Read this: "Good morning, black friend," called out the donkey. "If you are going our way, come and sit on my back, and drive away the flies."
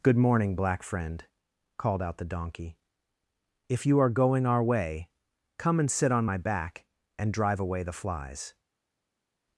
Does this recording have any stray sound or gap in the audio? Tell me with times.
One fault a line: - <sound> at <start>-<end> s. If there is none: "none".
none